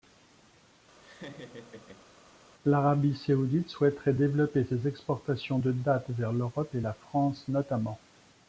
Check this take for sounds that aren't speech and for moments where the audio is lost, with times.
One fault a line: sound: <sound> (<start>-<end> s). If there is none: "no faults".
sound: laugh (1.0-2.1 s)